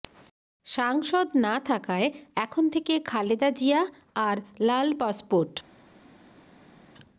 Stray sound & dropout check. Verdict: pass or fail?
pass